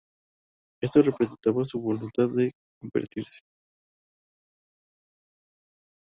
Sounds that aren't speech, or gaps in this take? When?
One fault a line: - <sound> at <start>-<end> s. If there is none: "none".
none